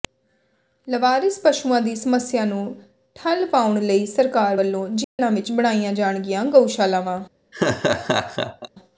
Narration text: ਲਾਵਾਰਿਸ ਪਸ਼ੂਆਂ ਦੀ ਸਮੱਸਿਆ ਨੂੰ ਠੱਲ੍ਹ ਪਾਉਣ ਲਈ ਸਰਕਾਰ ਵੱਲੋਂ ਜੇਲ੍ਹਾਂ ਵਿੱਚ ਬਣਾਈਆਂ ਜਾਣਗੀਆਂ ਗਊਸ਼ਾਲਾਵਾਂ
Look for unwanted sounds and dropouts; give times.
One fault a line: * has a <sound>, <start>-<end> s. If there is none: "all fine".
* has a dropout, 5.0-5.2 s
* has a laugh, 7.5-8.7 s